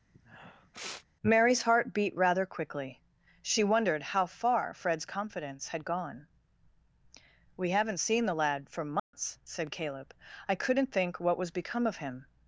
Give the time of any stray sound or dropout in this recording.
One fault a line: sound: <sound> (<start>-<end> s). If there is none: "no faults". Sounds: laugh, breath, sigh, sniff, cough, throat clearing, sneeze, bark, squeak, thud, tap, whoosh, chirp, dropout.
sound: sniff (0.1-1.1 s)
sound: dropout (9.0-9.1 s)